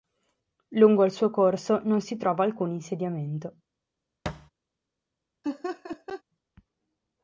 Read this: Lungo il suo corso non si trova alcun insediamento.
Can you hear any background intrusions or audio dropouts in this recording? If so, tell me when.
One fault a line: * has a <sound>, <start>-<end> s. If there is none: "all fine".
* has a thud, 4.3-4.5 s
* has a laugh, 5.4-6.2 s